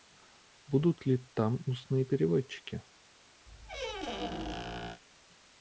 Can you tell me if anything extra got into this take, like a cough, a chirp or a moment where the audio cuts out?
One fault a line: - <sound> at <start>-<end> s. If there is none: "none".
- squeak at 3.5-5.0 s